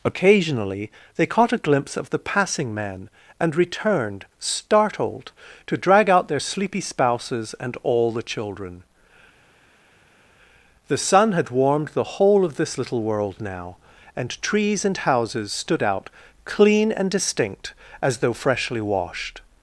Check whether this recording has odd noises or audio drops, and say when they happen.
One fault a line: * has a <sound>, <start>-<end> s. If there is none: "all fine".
all fine